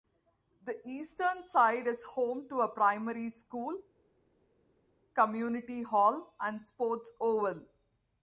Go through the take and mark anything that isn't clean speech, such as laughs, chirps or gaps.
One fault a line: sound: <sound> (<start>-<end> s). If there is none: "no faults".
no faults